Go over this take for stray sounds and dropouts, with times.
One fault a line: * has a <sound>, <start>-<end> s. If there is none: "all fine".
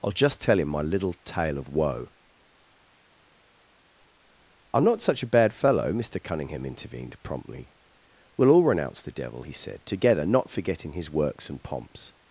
all fine